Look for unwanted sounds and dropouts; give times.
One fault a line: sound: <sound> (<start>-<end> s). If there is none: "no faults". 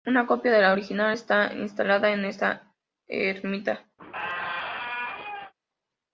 sound: squeak (4.0-5.5 s)